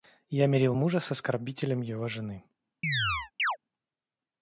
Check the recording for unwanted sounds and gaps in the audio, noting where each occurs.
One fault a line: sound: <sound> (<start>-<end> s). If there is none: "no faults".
sound: chirp (2.8-3.6 s)